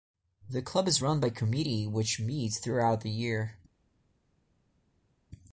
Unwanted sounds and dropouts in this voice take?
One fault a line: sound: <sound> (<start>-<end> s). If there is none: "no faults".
no faults